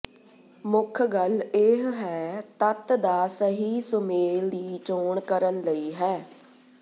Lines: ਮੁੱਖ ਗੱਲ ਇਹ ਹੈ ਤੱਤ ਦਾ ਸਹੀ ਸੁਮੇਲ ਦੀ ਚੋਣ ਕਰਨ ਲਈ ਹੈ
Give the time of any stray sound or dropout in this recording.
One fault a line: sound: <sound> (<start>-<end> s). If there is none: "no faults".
no faults